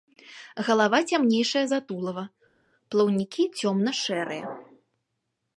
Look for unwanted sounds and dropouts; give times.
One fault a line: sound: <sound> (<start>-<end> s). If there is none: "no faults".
no faults